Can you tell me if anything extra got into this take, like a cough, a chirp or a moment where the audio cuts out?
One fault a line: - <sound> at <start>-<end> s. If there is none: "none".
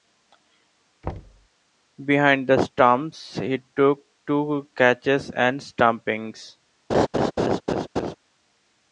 - thud at 1.0-1.5 s
- laugh at 6.9-8.2 s